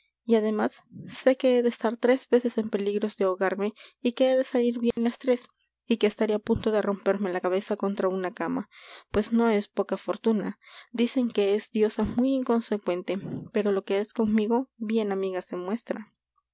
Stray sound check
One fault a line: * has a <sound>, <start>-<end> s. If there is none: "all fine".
* has a dropout, 4.9-5.0 s